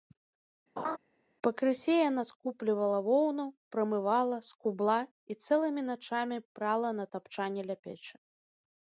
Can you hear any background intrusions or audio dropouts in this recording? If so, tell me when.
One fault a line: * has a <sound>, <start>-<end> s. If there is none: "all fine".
* has a laugh, 0.8-1.0 s